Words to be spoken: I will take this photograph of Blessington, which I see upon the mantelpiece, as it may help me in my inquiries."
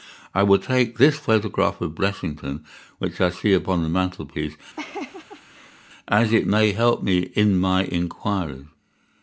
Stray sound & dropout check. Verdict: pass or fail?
fail